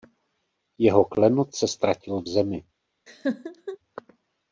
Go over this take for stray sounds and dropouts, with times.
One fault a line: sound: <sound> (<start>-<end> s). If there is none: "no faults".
sound: laugh (3.1-3.8 s)